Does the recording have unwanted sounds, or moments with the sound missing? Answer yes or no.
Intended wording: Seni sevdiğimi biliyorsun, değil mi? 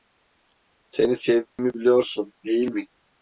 yes